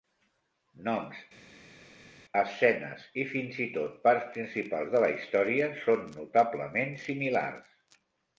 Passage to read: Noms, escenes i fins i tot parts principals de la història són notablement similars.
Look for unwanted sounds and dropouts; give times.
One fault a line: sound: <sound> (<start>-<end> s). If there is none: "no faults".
no faults